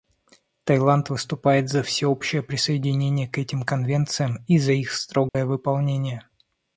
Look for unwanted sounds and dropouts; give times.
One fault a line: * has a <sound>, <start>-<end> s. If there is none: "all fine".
* has a dropout, 5.3-5.3 s